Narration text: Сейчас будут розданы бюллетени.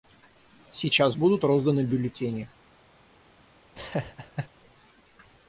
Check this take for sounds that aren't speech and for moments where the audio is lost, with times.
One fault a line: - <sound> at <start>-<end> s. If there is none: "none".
- laugh at 3.7-4.5 s